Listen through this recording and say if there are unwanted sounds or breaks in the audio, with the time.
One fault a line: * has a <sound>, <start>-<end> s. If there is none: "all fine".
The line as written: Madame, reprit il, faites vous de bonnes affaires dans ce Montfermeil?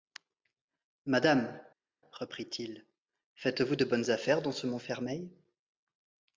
all fine